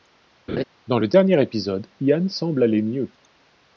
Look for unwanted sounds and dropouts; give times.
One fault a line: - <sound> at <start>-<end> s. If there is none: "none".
- laugh at 0.5-0.6 s